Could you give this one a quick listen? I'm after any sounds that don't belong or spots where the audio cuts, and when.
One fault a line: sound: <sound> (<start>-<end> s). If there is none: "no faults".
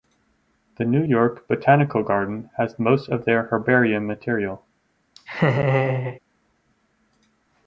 sound: laugh (5.1-6.2 s)